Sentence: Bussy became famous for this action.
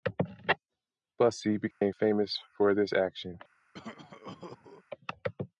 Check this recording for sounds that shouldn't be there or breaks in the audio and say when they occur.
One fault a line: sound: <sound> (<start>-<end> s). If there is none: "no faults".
sound: dropout (1.7-1.8 s)
sound: cough (3.7-4.8 s)